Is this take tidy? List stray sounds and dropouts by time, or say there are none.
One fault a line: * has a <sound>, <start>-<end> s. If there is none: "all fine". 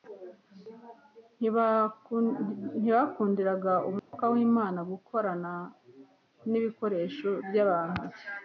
* has a dropout, 4.0-4.1 s